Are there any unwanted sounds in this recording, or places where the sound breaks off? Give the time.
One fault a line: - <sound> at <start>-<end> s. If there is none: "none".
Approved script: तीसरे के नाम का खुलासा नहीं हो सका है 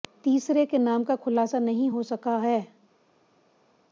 none